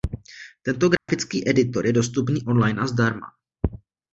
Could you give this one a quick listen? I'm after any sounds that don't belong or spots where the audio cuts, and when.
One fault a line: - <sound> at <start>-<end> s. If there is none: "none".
- dropout at 1.0-1.1 s